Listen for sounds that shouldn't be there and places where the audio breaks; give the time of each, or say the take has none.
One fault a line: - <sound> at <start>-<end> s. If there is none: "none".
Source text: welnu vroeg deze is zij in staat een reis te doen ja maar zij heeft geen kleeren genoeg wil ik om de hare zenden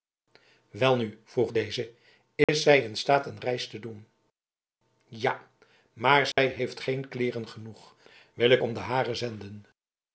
- dropout at 2.4-2.5 s
- dropout at 6.3-6.4 s